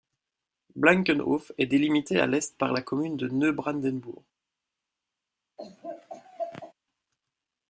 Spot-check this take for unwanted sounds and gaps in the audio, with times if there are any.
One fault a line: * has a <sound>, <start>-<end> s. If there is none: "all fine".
* has a laugh, 5.6-6.7 s